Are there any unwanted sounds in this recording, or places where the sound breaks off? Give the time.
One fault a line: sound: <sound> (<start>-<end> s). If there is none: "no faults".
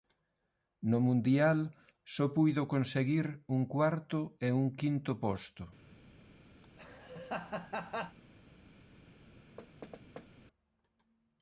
sound: laugh (6.6-8.2 s)
sound: thud (9.6-10.3 s)